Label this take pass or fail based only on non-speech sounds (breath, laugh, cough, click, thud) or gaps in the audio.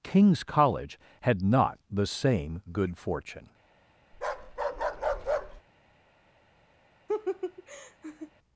fail